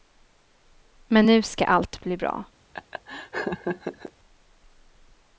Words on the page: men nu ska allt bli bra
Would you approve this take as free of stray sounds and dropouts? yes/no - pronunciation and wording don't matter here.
no